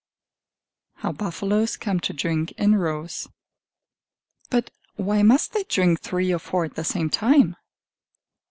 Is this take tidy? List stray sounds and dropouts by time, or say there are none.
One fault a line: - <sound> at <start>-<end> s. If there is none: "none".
none